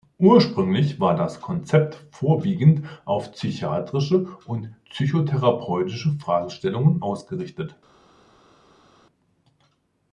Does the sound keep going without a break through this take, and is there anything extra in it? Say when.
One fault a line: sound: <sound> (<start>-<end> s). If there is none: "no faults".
no faults